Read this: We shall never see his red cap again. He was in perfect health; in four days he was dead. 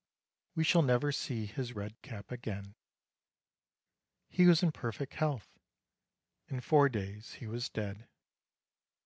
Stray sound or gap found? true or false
false